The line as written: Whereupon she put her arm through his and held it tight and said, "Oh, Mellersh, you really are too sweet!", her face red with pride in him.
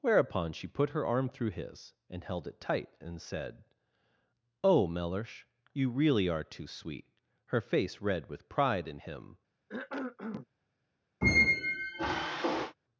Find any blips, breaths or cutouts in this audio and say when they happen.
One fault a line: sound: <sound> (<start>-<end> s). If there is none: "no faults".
sound: cough (9.7-10.5 s)
sound: squeak (11.2-12.7 s)